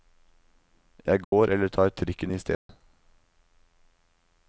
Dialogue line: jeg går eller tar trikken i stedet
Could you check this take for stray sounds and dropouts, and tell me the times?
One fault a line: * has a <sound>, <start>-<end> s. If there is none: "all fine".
* has a dropout, 1.2-1.3 s
* has a dropout, 2.5-2.7 s